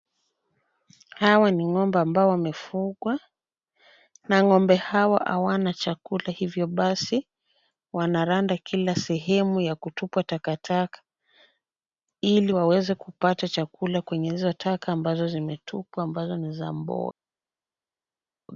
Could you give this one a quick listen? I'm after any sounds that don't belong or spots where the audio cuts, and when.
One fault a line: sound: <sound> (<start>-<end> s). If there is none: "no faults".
no faults